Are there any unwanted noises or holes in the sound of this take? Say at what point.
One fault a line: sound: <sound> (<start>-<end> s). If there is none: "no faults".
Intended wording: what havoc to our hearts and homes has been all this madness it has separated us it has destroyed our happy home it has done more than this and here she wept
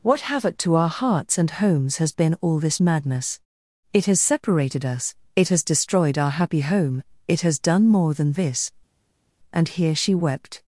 no faults